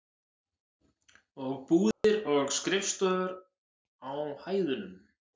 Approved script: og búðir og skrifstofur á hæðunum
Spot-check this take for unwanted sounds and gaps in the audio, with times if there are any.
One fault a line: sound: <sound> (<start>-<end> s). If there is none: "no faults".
sound: dropout (1.9-2.0 s)